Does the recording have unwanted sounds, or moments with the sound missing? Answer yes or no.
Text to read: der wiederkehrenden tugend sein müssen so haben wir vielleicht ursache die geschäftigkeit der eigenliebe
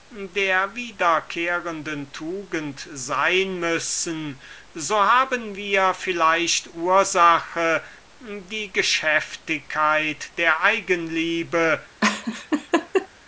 yes